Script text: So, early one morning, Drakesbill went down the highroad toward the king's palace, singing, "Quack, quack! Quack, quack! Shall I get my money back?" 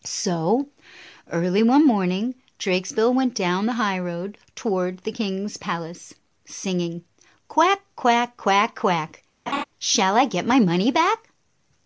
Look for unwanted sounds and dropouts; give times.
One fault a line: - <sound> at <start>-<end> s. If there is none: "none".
- laugh at 9.5-9.6 s